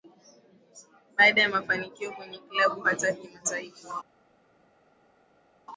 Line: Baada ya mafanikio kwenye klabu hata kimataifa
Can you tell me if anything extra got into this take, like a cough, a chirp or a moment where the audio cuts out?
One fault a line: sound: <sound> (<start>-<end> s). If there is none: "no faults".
no faults